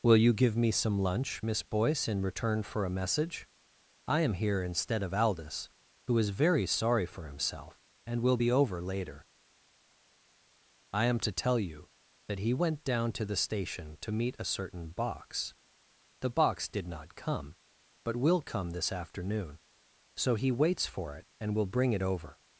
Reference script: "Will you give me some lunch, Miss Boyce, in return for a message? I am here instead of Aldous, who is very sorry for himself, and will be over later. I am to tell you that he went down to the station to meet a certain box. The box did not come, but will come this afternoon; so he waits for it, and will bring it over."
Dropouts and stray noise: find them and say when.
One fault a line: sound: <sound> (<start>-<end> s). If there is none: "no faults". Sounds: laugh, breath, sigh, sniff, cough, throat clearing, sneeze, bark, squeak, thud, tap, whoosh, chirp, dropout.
no faults